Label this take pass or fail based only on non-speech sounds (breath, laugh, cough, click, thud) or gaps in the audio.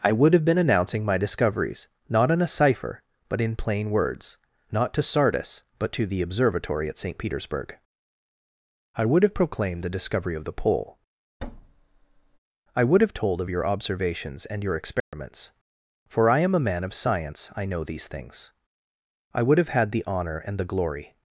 fail